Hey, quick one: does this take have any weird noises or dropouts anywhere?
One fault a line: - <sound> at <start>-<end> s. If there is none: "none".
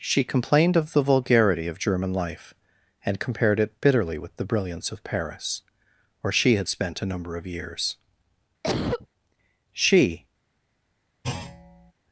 - cough at 8.6-9.1 s
- thud at 11.2-11.9 s